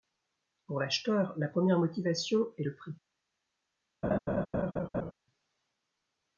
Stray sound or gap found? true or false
true